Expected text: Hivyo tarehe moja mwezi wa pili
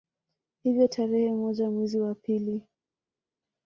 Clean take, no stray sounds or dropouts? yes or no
yes